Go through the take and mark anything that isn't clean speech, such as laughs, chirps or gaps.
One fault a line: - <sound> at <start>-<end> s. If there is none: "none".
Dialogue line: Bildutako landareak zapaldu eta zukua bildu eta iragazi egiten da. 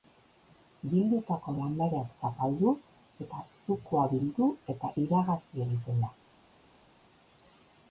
none